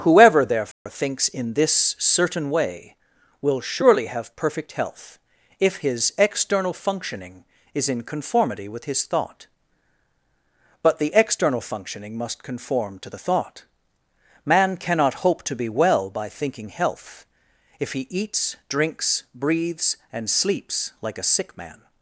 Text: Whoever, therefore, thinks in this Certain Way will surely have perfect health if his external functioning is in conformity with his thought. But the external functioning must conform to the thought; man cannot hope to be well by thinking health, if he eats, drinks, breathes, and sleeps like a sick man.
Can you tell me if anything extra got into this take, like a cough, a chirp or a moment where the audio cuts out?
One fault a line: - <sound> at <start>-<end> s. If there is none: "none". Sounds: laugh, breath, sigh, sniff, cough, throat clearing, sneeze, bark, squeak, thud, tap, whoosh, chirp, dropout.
- dropout at 0.7-0.9 s